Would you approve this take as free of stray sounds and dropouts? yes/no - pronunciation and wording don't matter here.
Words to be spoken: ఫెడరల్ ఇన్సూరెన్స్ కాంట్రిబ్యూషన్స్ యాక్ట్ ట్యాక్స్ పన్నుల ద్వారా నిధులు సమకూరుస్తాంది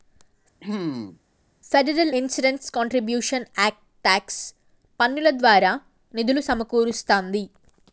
no